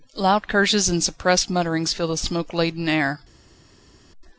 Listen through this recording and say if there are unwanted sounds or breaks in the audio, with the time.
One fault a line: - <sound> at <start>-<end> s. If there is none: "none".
none